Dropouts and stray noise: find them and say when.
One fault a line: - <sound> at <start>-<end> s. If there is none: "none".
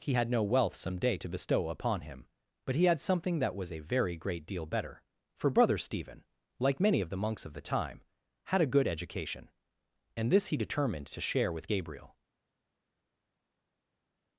none